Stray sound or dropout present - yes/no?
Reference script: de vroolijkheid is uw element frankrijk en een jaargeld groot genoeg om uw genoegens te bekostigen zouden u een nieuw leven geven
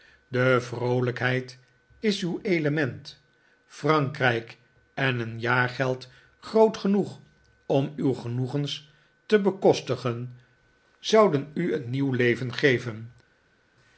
no